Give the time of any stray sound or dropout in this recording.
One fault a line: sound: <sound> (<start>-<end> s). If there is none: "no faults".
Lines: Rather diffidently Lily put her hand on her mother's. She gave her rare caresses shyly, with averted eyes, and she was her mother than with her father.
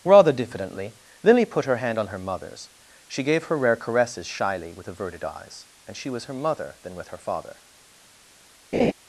sound: laugh (8.7-8.9 s)